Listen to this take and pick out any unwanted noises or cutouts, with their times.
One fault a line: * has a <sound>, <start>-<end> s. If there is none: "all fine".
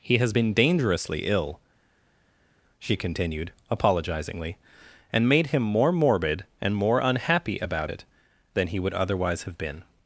all fine